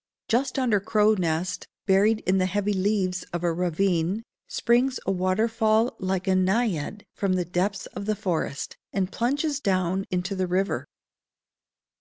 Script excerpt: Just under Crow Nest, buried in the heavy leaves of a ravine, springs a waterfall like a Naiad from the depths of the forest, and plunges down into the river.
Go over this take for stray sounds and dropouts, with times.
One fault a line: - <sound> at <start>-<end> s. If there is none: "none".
none